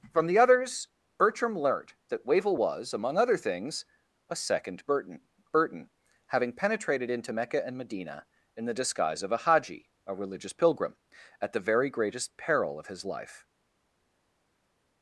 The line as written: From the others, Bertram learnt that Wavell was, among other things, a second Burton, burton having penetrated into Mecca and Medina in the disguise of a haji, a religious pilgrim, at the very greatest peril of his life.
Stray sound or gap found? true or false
false